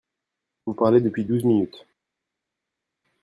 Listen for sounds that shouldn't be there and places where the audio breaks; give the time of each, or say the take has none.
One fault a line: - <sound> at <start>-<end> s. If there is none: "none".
none